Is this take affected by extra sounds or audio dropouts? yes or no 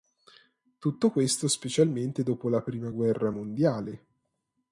no